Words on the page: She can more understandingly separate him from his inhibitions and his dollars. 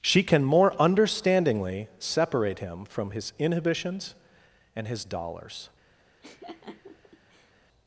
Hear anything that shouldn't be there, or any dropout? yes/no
yes